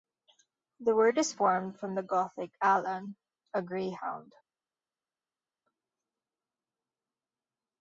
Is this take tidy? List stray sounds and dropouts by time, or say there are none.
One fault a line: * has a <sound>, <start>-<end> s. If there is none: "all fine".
all fine